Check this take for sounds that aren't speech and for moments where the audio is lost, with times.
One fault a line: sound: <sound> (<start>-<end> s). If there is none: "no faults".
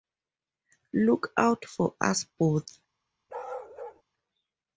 sound: bark (3.3-4.0 s)